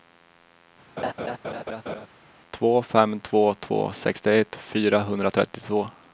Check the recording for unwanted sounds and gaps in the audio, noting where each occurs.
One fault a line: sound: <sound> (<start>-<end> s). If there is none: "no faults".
sound: laugh (1.0-2.1 s)